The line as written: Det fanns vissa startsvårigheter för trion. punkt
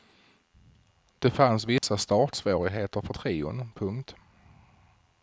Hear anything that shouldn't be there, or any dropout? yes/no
yes